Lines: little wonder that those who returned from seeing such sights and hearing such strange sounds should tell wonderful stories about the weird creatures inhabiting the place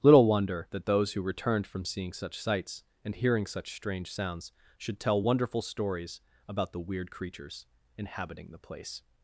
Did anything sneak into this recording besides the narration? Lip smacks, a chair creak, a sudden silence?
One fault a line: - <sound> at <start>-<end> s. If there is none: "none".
none